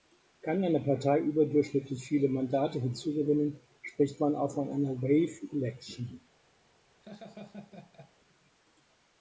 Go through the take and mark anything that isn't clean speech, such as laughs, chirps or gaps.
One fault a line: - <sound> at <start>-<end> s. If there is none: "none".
- laugh at 7.0-8.1 s